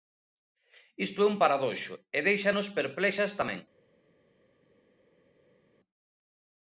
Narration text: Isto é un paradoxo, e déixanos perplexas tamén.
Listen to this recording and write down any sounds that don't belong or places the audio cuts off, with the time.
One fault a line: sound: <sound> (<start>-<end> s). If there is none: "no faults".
no faults